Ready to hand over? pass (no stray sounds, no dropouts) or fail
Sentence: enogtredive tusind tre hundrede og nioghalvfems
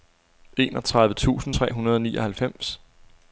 pass